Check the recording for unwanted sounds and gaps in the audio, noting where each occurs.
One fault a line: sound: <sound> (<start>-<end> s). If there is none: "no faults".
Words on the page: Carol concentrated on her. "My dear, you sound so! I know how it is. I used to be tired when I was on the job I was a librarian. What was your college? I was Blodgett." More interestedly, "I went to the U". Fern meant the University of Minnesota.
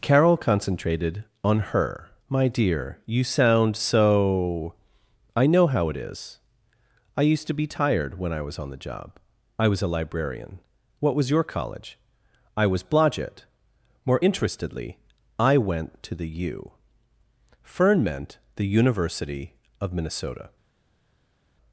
no faults